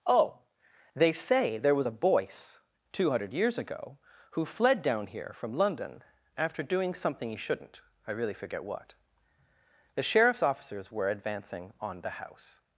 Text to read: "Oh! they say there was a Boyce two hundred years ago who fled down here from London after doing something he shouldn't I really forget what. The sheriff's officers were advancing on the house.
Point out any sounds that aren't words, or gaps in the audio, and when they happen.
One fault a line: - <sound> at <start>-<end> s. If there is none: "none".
none